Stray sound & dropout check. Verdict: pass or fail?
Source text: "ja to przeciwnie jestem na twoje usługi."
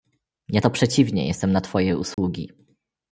fail